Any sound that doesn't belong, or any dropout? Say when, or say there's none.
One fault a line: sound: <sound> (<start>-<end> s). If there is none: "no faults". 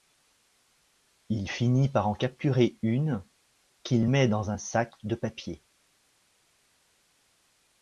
no faults